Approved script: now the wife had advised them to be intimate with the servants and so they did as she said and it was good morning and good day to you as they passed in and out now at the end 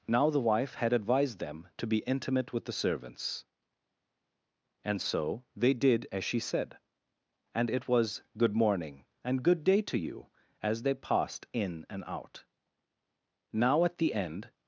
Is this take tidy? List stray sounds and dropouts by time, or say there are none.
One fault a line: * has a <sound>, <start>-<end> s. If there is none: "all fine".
all fine